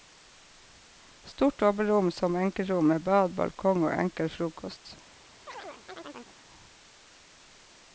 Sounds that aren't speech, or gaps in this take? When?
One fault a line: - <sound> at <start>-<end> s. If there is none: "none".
- chirp at 5.5-6.4 s